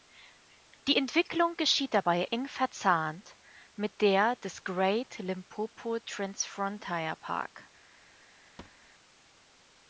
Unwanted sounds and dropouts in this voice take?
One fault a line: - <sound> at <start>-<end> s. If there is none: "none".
- thud at 8.6-8.9 s